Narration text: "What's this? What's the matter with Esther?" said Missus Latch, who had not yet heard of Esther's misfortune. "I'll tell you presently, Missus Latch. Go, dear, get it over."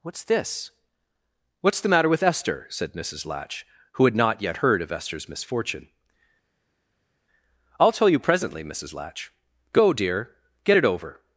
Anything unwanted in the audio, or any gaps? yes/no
no